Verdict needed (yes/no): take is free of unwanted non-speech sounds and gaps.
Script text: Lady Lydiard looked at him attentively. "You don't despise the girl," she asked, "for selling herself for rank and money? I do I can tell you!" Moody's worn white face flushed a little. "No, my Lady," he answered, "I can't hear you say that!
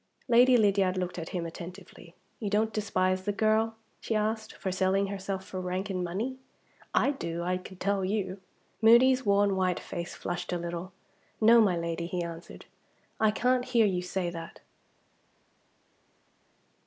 yes